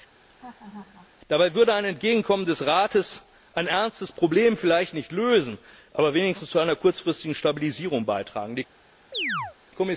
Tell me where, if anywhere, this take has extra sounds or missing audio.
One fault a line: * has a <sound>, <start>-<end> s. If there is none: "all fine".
* has a laugh, 0.2-1.1 s
* has a chirp, 9.1-9.6 s